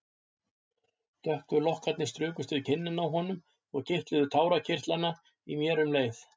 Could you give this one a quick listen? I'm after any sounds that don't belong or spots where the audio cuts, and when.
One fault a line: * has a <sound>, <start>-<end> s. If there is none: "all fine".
all fine